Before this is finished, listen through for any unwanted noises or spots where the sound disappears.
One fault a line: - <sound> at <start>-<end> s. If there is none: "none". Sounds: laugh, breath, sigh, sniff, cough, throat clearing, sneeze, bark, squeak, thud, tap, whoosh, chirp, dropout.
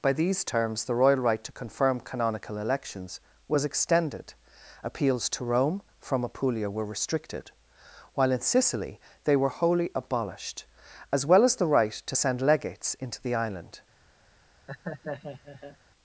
- laugh at 14.7-15.8 s